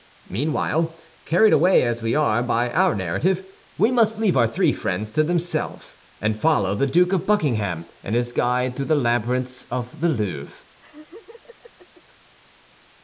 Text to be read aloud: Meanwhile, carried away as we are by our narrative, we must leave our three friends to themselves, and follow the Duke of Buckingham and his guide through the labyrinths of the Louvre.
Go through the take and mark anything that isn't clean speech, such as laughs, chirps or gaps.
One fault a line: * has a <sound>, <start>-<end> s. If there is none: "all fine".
* has a laugh, 10.8-12.0 s